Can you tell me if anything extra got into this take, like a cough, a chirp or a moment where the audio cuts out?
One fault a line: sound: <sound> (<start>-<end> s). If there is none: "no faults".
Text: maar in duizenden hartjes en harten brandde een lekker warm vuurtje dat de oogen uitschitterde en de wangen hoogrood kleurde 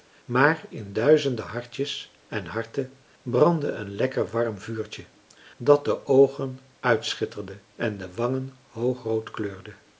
no faults